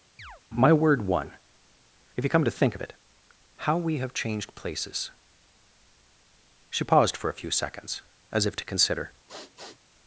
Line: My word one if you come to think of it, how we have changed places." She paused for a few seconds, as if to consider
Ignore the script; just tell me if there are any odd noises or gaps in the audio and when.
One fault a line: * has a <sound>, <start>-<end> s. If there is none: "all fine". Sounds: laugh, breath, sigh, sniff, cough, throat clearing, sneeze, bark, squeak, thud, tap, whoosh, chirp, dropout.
* has a chirp, 0.2-0.4 s
* has a sniff, 9.3-9.8 s